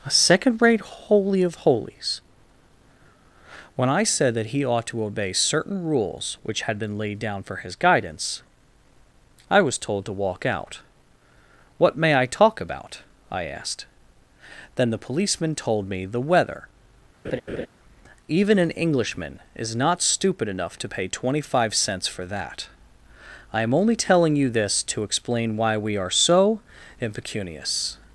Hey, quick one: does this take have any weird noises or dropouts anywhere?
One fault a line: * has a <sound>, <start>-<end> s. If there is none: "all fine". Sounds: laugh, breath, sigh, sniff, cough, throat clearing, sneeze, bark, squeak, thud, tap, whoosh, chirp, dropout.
* has a laugh, 17.2-17.7 s